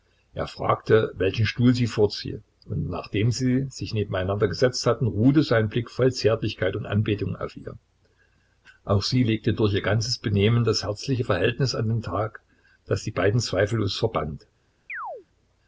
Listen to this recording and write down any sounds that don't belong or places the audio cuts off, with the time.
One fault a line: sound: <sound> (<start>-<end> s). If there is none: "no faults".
sound: chirp (14.9-15.3 s)